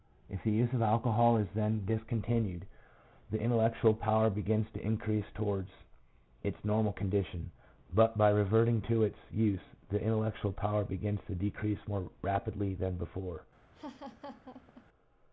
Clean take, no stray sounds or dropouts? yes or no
no